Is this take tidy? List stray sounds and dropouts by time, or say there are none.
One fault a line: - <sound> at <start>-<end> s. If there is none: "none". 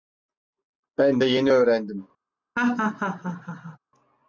- laugh at 2.6-3.8 s